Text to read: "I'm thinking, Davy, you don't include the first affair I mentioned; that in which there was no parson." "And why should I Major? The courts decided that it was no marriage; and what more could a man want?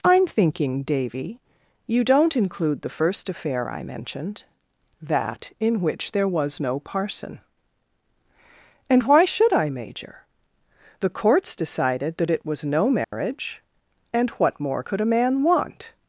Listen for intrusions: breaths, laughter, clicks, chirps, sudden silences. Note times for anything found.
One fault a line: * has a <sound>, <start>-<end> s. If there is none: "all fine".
* has a dropout, 13.0-13.1 s